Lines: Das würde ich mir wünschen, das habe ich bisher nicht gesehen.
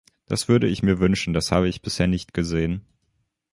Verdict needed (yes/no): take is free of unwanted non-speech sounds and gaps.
yes